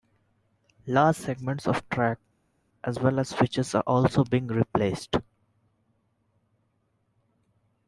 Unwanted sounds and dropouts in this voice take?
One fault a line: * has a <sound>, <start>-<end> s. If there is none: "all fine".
all fine